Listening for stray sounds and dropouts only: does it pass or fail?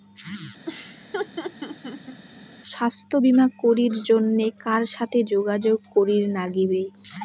fail